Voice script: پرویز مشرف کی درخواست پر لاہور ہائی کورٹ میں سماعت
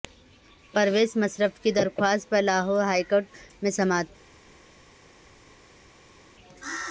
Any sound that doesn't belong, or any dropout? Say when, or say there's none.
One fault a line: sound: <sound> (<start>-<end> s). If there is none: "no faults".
no faults